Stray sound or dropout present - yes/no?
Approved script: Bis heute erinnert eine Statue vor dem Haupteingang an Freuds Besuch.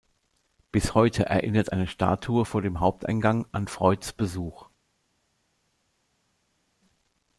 no